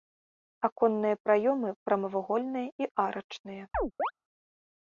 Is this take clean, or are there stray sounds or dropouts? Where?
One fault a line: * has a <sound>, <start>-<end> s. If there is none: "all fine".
* has a chirp, 3.7-4.1 s